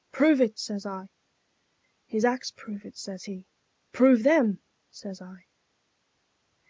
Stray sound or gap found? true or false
false